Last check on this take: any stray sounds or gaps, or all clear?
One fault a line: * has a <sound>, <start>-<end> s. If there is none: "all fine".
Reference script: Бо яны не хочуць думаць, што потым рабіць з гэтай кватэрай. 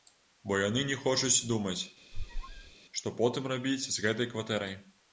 * has a squeak, 2.1-2.8 s